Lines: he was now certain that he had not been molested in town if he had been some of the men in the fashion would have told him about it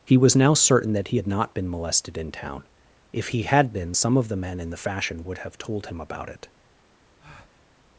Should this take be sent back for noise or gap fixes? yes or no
yes